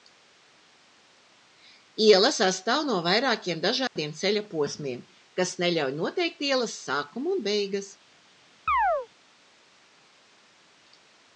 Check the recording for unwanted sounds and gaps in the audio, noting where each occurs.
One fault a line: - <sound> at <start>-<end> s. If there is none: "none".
- dropout at 3.9-4.0 s
- chirp at 8.7-9.1 s